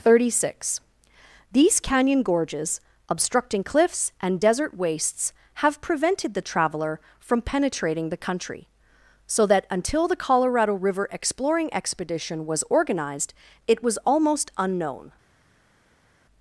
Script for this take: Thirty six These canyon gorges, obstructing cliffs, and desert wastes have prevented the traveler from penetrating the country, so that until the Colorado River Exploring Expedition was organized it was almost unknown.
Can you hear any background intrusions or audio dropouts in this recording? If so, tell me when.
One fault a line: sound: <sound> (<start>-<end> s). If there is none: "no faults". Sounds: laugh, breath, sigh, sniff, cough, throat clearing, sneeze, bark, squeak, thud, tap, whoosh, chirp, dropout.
no faults